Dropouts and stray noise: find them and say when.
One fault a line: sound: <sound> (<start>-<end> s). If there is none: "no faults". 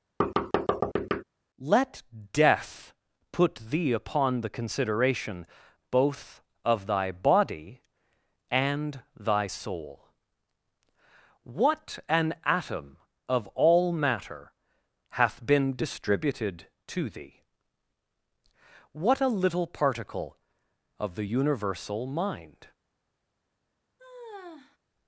sound: thud (0.2-1.2 s)
sound: sigh (24.0-24.8 s)